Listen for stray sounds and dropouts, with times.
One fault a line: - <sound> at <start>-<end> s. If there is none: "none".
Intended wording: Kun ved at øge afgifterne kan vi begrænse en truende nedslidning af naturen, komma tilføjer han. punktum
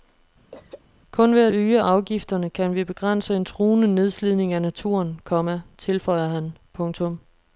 - throat clearing at 0.5-0.8 s